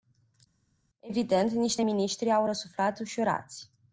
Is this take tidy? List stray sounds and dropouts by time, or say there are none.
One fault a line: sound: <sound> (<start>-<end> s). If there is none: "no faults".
no faults